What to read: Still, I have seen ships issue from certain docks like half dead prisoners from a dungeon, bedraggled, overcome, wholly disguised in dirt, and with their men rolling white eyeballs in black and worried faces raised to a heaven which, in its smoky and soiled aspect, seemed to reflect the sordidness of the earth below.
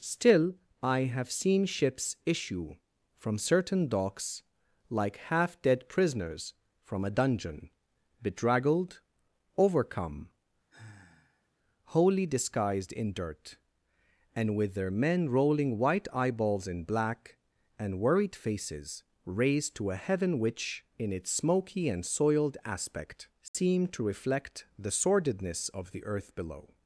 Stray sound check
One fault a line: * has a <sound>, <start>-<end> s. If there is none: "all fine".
* has a sigh, 10.7-11.5 s
* has a dropout, 23.5-23.5 s